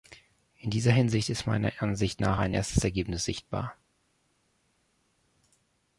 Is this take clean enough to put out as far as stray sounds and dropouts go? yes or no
yes